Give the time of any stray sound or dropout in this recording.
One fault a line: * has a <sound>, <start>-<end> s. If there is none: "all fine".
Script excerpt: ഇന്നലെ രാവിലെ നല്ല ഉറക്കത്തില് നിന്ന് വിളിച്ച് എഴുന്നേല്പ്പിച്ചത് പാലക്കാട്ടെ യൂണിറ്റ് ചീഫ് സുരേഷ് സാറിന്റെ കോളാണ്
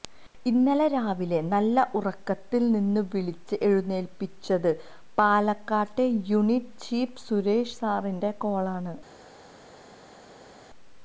all fine